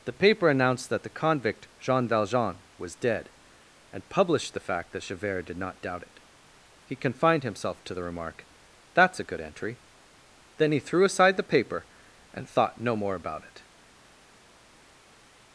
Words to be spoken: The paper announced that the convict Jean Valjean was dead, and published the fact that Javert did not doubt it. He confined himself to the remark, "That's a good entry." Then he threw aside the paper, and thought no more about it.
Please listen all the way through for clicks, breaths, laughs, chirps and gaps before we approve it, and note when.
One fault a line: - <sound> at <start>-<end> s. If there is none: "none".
none